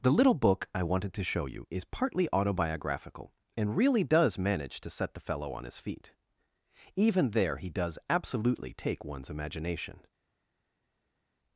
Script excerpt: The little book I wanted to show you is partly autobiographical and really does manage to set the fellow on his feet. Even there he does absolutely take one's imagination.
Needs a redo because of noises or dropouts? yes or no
no